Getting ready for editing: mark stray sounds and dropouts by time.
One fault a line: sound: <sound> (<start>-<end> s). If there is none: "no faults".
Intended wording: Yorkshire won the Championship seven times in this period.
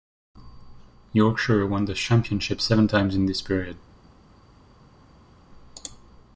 no faults